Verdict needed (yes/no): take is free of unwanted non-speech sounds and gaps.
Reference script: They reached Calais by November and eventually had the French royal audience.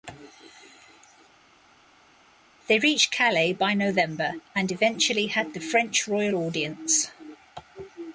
yes